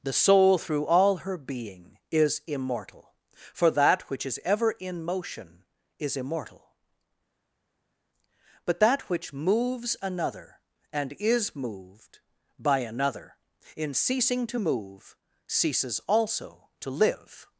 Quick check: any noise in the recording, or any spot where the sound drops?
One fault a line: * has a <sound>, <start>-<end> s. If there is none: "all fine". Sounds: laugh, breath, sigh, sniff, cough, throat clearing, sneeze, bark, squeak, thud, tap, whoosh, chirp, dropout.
all fine